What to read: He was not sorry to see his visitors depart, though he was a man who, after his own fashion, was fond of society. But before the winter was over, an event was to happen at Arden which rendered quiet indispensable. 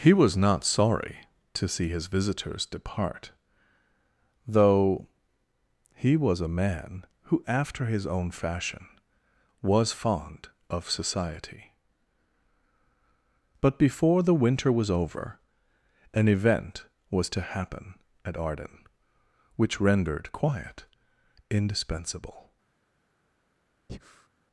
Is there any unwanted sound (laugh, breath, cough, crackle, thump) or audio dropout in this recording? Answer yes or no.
yes